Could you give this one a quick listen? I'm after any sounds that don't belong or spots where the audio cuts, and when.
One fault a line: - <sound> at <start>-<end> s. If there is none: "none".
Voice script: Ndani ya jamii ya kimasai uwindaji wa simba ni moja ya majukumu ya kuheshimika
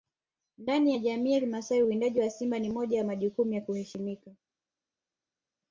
none